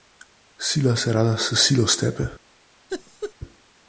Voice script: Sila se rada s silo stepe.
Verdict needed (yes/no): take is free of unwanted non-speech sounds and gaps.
no